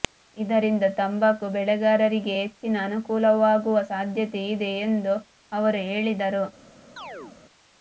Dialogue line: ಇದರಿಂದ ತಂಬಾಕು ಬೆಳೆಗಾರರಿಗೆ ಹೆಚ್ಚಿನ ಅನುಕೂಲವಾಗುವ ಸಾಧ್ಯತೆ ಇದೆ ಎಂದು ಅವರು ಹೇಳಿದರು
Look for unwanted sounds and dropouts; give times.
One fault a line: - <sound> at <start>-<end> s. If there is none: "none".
- chirp at 7.0-7.4 s